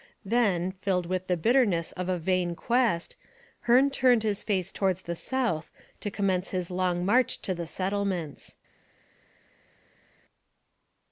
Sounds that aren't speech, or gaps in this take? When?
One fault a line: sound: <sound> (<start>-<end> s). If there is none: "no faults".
no faults